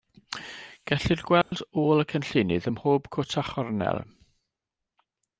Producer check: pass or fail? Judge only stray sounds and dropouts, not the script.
fail